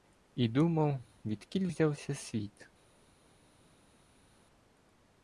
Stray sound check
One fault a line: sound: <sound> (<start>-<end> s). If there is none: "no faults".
no faults